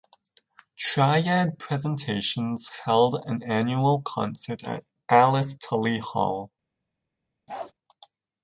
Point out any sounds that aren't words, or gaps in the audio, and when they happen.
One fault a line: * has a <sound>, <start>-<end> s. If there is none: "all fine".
* has a bark, 7.5-7.7 s